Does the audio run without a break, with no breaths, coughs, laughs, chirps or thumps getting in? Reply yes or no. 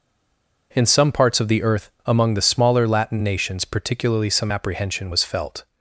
yes